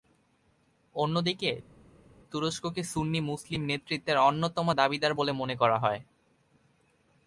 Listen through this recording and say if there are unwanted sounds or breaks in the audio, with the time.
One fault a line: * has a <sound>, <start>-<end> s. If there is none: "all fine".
all fine